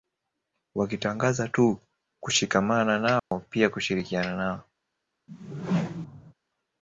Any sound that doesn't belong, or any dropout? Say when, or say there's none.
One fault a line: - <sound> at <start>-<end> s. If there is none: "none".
- dropout at 3.2-3.3 s
- whoosh at 5.3-6.3 s